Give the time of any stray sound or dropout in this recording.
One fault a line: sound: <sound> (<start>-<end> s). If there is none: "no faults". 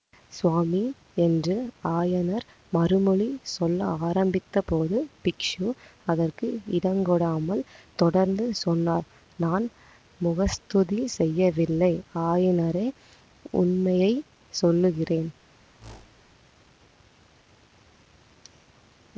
sound: whoosh (15.8-16.3 s)